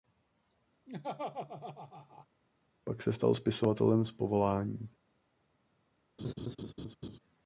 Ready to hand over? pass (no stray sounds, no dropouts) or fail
fail